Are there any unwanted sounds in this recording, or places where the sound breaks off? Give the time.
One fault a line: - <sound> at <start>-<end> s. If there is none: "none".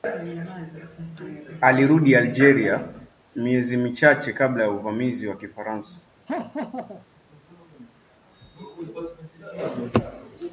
- laugh at 6.3-7.1 s